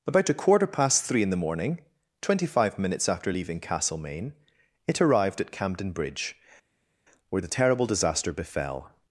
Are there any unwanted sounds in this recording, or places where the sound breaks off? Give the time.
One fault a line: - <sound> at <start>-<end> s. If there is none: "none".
none